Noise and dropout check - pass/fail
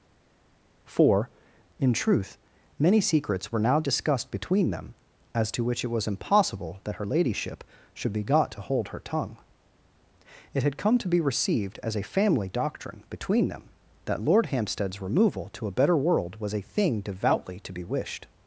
pass